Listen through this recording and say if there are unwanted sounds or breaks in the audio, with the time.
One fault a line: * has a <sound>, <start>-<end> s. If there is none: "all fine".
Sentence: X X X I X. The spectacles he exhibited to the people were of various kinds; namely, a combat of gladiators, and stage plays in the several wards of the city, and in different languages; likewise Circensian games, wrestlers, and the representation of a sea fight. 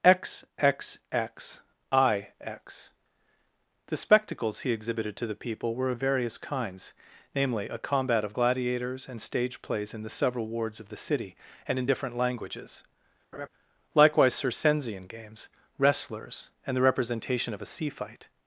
* has a laugh, 13.3-13.5 s